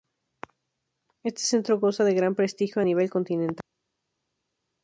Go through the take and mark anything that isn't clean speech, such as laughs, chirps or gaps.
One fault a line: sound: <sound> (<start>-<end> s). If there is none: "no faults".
no faults